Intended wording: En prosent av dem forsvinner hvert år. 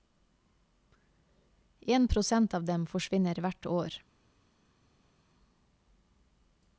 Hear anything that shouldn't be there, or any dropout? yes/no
no